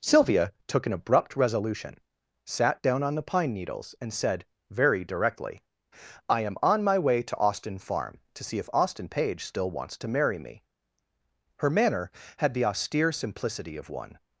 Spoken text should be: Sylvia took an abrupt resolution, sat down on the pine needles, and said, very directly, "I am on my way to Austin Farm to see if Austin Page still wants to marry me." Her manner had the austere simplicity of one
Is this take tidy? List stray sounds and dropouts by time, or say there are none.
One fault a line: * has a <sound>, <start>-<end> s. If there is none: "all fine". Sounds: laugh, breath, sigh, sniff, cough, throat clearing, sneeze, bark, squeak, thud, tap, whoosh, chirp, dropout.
all fine